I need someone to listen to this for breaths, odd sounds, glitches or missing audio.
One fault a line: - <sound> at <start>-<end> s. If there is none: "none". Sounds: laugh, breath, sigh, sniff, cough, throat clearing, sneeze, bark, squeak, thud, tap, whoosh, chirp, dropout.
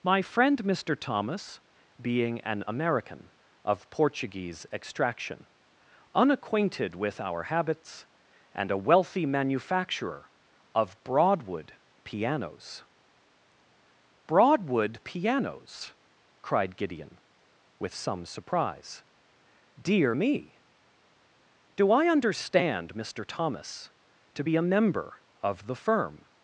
none